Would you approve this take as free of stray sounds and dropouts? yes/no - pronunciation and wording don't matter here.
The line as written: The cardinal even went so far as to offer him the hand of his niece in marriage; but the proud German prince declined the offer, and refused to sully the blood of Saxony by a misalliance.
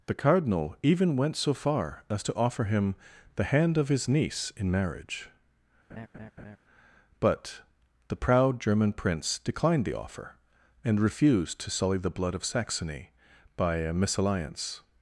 no